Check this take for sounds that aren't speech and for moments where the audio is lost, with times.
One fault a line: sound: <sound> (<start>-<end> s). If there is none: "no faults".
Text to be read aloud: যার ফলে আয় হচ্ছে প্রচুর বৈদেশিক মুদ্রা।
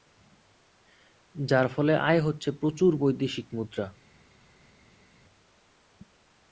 no faults